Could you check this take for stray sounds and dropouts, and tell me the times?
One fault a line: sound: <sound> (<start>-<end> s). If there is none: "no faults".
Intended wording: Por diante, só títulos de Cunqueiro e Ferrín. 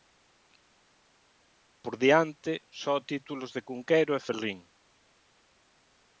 no faults